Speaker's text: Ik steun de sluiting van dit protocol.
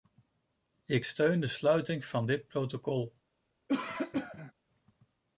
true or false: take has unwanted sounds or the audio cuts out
true